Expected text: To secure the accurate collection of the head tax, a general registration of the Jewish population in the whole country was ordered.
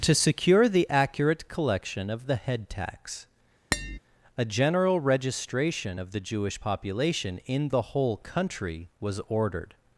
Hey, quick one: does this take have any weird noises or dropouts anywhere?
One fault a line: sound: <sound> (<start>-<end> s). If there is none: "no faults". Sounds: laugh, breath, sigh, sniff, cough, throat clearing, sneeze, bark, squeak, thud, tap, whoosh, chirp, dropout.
sound: tap (3.7-4.0 s)